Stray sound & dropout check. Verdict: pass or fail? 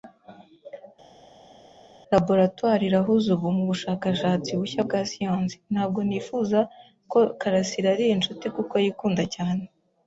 pass